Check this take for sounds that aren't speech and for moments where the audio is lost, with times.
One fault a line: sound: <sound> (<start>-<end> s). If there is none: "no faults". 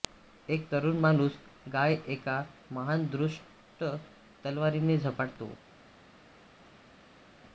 no faults